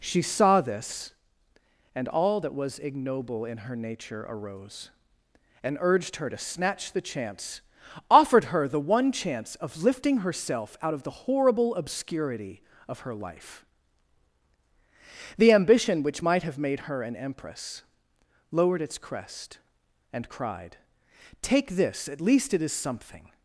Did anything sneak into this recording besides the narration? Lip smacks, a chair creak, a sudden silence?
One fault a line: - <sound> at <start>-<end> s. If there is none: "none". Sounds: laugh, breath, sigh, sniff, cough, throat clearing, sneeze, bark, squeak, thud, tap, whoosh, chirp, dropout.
none